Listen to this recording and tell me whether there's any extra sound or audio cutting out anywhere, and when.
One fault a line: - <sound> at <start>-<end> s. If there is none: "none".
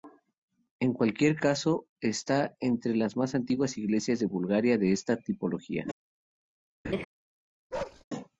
- laugh at 6.8-7.0 s
- bark at 7.7-8.0 s